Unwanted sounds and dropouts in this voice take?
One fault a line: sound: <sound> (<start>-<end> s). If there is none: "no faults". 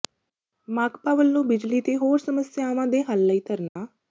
sound: dropout (3.7-3.8 s)